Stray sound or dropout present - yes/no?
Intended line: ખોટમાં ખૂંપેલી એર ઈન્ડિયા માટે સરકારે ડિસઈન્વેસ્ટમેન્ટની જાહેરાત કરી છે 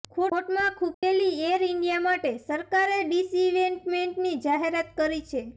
yes